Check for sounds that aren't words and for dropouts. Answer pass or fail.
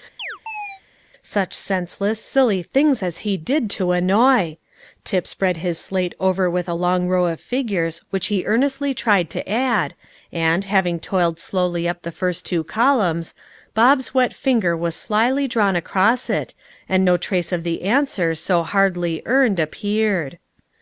fail